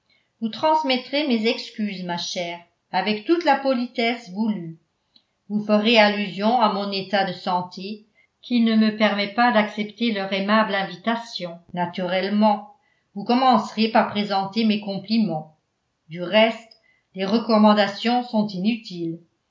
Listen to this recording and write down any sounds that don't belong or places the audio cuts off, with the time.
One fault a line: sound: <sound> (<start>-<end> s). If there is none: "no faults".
no faults